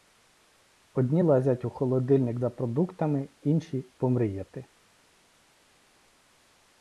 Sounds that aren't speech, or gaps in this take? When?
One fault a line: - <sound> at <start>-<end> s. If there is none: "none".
none